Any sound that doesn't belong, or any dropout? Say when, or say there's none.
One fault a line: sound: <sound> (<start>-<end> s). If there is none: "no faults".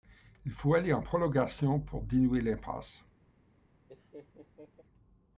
sound: laugh (3.9-4.8 s)